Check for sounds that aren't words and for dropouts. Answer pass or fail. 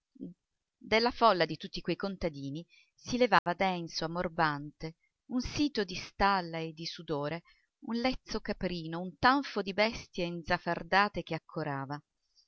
fail